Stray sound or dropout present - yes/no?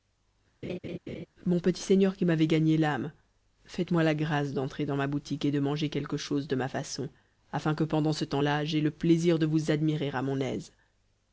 yes